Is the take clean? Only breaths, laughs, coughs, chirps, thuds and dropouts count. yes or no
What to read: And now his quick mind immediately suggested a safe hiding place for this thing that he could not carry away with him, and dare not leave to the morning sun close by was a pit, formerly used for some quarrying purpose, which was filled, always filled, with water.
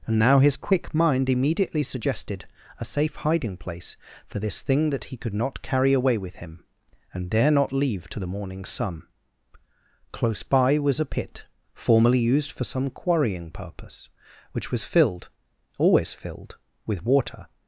yes